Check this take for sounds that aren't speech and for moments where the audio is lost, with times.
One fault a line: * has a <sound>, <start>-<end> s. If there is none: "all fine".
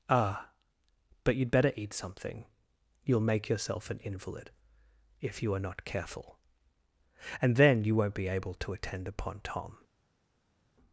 all fine